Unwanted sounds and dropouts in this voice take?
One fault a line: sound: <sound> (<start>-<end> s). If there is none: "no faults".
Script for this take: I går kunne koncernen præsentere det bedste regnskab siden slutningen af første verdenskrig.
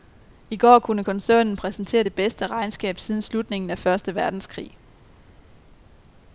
no faults